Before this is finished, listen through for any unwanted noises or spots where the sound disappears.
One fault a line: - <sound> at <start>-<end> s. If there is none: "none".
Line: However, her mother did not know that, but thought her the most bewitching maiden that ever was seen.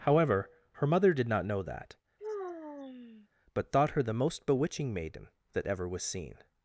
- sigh at 2.2-3.3 s